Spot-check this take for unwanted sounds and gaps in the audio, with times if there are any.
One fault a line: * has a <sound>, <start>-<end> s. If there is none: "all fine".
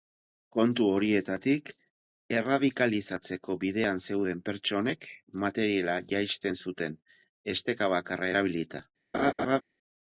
* has a laugh, 9.1-9.6 s